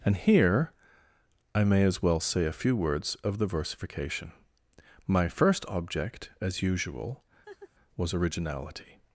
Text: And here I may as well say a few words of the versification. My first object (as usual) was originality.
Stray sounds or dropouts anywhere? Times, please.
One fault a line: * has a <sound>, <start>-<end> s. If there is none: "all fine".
* has a laugh, 7.5-7.7 s